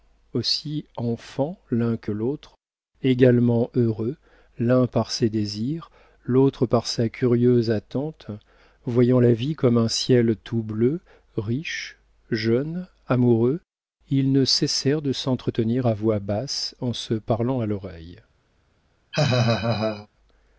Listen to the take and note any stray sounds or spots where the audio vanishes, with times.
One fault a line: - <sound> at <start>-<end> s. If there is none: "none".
- laugh at 19.1-20.1 s